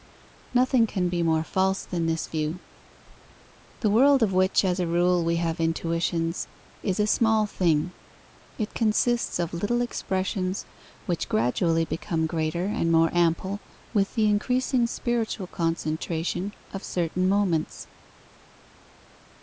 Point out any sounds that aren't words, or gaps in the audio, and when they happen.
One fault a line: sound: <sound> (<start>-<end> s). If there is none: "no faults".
no faults